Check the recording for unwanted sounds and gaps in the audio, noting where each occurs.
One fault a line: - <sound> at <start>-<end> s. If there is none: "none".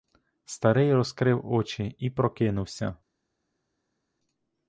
none